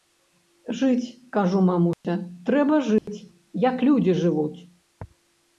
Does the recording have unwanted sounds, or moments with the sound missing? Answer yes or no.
yes